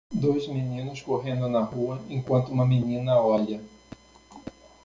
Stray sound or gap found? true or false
false